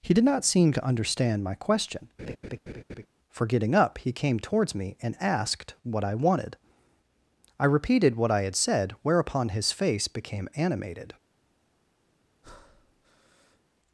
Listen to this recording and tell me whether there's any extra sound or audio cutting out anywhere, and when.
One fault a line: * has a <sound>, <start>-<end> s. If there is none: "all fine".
* has a laugh, 2.2-3.1 s
* has a breath, 12.4-13.6 s